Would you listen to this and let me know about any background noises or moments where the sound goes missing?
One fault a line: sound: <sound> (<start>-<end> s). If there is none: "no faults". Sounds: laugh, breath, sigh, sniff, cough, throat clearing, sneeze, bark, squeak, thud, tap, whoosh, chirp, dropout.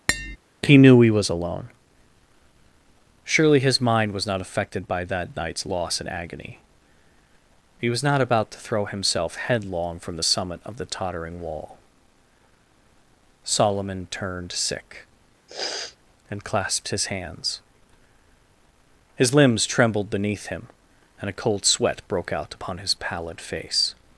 sound: tap (0.1-0.4 s)
sound: sniff (15.5-16.0 s)